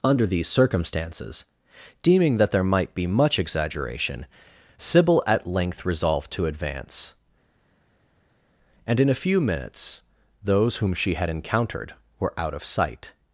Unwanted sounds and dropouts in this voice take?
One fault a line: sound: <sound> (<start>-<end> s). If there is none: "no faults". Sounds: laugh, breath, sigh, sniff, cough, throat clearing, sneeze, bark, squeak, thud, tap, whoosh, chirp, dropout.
no faults